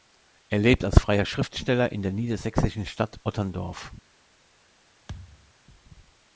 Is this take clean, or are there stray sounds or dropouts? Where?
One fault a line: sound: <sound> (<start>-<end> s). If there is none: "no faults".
sound: thud (5.1-5.5 s)